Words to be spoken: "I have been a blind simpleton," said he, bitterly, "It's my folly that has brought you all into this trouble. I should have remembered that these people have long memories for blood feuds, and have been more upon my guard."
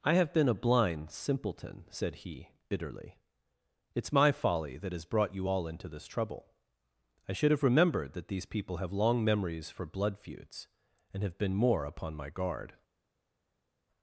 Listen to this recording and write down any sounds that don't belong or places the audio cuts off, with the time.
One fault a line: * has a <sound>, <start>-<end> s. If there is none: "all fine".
all fine